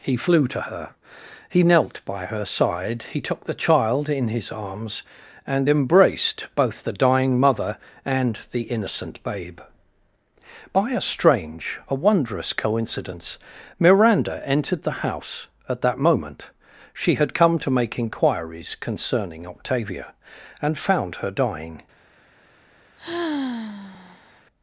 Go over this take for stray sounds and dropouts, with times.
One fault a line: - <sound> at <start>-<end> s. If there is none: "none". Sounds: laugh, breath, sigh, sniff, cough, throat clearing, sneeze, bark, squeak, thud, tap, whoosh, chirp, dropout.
- sigh at 23.0-24.4 s